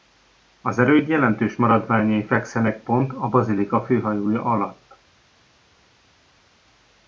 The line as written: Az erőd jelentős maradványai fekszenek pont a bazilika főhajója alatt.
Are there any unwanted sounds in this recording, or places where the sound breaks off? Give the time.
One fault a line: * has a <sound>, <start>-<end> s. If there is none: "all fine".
all fine